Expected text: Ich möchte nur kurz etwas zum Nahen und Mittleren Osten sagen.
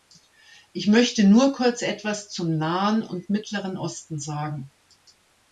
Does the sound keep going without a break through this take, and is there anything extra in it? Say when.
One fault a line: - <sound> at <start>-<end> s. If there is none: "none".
none